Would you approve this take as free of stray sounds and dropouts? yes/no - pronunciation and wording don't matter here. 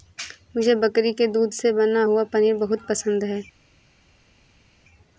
yes